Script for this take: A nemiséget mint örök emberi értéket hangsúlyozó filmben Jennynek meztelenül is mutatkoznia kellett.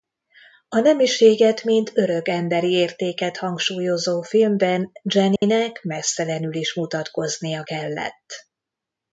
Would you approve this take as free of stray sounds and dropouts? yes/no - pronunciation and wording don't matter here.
no